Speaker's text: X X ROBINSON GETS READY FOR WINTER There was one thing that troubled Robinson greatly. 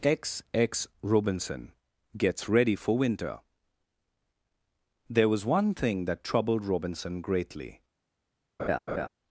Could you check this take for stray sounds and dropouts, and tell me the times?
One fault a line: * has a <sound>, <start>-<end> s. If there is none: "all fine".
* has a laugh, 8.6-9.1 s